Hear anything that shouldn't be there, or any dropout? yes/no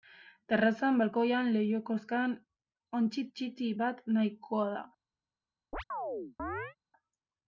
yes